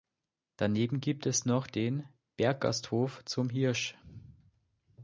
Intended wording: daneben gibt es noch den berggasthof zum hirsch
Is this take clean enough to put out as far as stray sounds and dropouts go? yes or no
yes